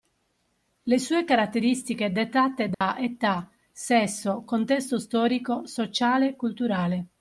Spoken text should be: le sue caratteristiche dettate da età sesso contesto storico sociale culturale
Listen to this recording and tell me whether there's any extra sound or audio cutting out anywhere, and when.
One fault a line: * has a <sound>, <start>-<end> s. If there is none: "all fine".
* has a dropout, 2.7-2.8 s